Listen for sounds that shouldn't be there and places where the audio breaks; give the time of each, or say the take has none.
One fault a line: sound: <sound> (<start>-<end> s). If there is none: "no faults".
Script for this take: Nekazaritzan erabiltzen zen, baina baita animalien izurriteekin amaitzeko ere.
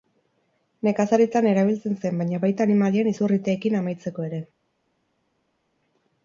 no faults